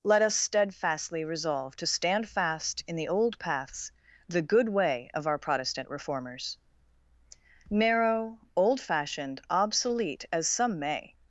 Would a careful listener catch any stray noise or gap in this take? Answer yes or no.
no